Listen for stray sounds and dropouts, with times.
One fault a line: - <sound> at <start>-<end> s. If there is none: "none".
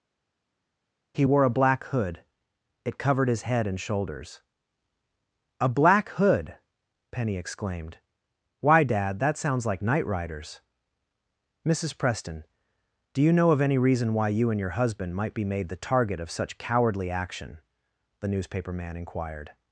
none